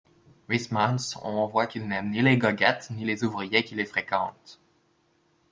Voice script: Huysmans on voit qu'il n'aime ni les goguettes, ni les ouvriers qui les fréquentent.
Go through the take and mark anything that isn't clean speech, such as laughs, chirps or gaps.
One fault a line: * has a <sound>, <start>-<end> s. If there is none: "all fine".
all fine